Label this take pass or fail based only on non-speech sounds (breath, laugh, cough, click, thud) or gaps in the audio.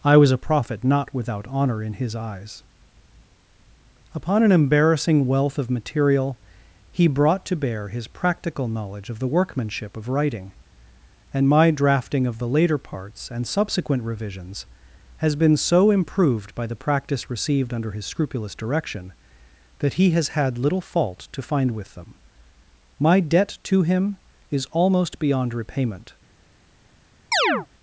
fail